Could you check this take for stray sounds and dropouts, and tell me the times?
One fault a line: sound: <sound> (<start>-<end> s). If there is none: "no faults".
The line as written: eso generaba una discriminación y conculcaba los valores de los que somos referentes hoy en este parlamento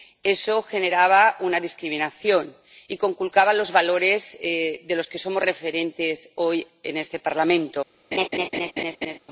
sound: laugh (8.1-9.2 s)